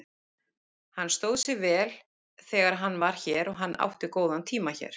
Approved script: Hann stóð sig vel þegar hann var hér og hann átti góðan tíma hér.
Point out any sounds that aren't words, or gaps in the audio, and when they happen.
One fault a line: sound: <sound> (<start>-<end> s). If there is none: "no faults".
no faults